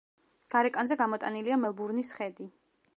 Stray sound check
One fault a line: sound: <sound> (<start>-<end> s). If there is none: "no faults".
no faults